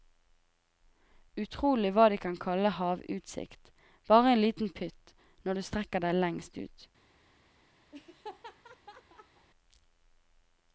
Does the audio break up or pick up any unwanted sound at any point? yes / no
yes